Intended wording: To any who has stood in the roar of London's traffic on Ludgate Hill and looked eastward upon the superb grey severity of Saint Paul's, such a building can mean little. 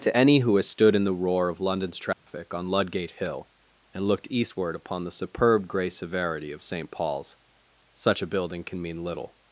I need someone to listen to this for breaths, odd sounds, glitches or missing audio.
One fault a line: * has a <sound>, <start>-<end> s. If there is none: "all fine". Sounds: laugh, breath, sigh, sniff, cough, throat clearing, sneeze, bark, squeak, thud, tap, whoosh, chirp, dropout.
* has a dropout, 2.1-2.3 s